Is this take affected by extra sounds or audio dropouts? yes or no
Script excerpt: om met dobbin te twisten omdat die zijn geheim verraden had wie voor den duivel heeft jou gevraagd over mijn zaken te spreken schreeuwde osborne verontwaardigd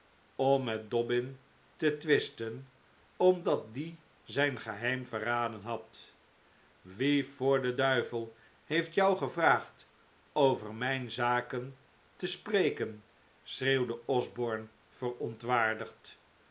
no